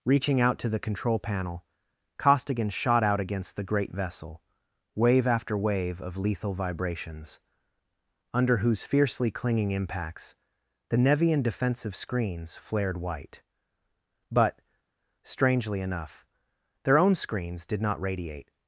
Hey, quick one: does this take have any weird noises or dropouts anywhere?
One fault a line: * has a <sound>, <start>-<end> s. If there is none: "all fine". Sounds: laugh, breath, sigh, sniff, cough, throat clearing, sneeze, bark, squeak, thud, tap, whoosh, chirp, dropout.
all fine